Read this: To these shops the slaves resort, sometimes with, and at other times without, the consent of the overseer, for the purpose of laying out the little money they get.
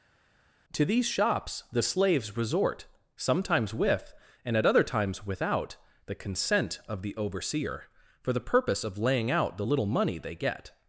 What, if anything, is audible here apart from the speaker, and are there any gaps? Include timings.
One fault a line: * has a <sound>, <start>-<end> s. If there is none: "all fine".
all fine